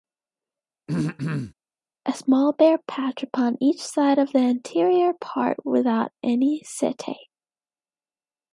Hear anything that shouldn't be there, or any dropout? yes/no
yes